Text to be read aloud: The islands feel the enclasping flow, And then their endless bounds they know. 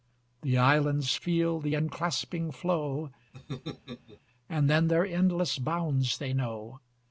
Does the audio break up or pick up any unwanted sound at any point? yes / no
yes